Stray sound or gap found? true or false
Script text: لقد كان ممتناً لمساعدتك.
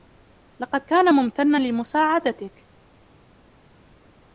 false